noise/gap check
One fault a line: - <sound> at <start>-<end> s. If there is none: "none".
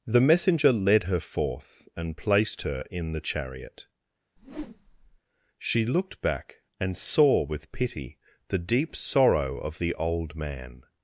- whoosh at 4.4-5.2 s